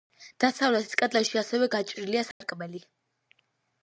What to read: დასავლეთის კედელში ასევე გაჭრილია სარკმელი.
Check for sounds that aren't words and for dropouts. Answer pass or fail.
fail